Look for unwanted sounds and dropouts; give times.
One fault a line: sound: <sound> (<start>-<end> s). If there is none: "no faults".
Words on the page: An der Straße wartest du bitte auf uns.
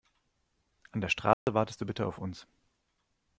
sound: dropout (1.3-1.5 s)